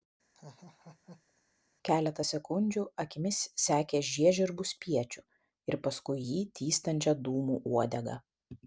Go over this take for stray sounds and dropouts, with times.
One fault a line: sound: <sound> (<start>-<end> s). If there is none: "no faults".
sound: laugh (0.3-1.4 s)